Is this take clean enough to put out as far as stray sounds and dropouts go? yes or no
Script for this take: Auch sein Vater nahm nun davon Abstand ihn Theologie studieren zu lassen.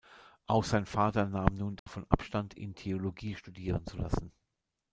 no